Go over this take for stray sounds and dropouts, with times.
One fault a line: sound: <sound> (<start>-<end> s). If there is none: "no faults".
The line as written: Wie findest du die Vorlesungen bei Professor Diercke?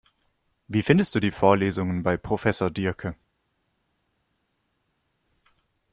no faults